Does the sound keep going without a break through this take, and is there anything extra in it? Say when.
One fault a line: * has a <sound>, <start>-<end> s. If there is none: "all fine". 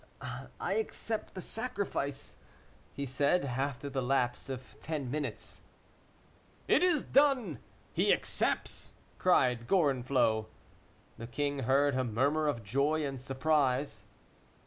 all fine